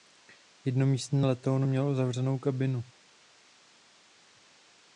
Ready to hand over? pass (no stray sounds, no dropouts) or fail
pass